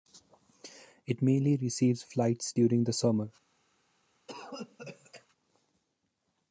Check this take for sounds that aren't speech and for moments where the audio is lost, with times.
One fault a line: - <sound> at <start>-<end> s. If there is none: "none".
- cough at 4.3-5.3 s